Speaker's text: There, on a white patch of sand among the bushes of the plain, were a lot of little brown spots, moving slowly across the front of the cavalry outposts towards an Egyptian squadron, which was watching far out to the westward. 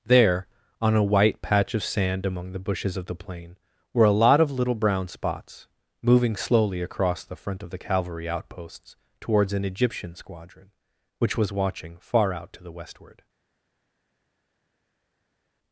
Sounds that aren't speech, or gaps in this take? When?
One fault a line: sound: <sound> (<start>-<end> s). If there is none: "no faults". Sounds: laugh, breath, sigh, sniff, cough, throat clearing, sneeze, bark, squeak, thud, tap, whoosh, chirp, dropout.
no faults